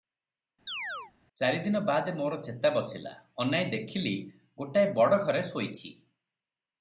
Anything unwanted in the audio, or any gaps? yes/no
yes